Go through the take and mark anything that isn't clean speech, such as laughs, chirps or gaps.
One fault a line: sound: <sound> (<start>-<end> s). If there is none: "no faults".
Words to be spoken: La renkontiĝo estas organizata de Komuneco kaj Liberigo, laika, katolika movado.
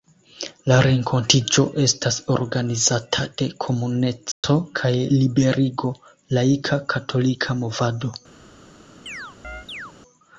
sound: dropout (4.3-4.4 s)
sound: chirp (9.1-9.9 s)